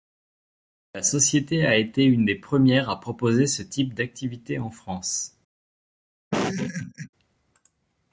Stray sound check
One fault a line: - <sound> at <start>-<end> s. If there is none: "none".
- laugh at 6.3-7.1 s